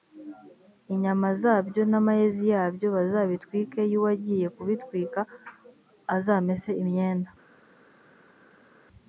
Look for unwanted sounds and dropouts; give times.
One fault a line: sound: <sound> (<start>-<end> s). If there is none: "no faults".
no faults